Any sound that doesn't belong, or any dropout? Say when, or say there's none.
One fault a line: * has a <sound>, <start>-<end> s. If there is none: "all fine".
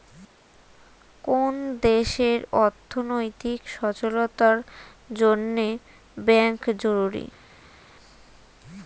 all fine